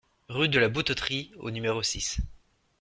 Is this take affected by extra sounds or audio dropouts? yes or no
no